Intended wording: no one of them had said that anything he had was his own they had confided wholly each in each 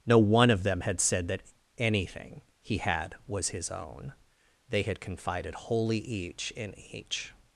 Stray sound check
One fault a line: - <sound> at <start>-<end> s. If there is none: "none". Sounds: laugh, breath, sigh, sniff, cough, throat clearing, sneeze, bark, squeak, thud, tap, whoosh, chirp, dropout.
none